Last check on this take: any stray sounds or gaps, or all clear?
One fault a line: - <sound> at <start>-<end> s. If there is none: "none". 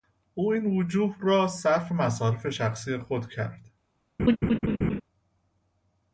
- laugh at 4.2-5.0 s